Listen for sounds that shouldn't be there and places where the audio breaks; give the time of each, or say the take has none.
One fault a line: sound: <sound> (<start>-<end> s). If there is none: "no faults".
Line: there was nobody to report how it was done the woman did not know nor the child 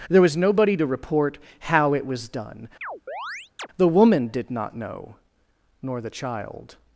sound: chirp (2.8-3.7 s)